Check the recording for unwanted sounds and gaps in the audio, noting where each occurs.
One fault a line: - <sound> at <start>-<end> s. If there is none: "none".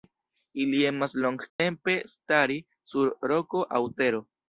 - dropout at 1.5-1.6 s